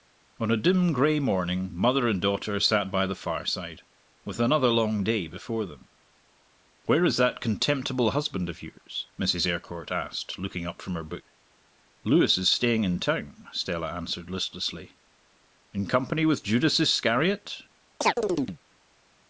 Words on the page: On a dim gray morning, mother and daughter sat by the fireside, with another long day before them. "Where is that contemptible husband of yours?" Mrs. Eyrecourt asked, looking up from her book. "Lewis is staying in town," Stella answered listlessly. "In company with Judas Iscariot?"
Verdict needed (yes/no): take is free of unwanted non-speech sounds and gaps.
no